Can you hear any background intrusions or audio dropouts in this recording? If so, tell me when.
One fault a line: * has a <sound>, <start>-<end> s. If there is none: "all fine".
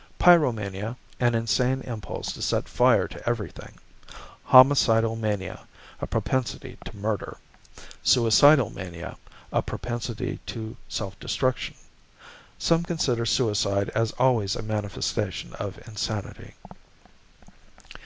all fine